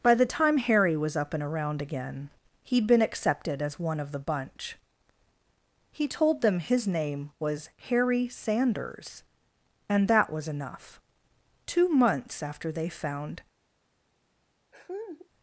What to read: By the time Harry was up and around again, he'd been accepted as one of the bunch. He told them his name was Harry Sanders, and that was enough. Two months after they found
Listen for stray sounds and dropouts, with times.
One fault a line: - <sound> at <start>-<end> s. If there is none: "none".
- laugh at 14.7-15.3 s